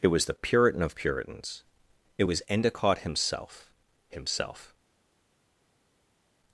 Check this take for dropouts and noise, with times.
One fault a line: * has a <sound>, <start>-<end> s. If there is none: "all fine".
all fine